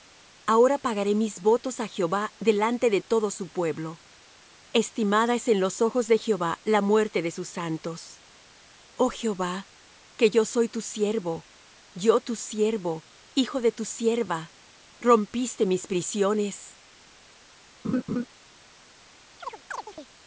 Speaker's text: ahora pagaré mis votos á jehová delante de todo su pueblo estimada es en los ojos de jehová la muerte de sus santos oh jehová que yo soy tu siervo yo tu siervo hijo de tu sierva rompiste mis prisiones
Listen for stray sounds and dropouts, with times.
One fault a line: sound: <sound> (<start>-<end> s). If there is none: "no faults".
sound: laugh (17.8-18.3 s)
sound: chirp (19.4-20.1 s)